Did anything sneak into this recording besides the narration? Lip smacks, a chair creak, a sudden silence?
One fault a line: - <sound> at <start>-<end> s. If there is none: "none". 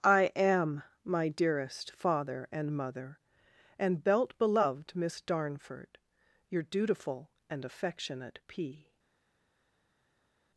none